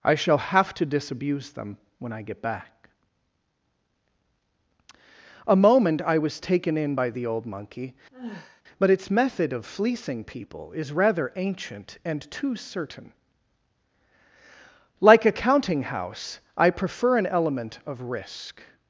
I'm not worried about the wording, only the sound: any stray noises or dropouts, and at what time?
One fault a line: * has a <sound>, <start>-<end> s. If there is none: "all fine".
* has a sigh, 8.1-8.6 s